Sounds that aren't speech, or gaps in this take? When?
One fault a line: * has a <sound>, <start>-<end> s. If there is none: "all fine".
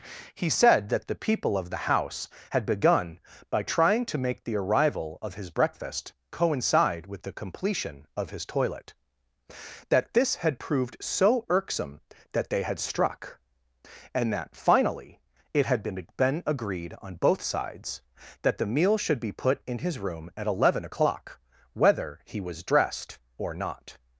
all fine